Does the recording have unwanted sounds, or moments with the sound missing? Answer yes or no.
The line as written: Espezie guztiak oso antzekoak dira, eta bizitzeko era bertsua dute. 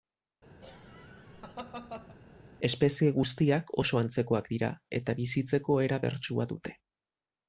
yes